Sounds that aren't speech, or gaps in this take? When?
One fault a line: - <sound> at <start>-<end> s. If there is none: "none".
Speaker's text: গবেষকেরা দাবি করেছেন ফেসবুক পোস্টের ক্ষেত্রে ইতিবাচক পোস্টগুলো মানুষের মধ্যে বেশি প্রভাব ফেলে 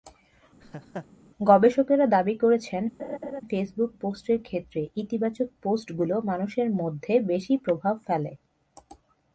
- laugh at 0.6-1.1 s
- laugh at 3.0-3.4 s